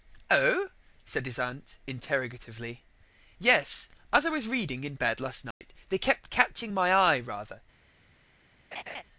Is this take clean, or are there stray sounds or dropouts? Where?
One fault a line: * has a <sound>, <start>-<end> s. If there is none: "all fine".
* has a dropout, 5.5-5.6 s
* has a laugh, 8.7-9.0 s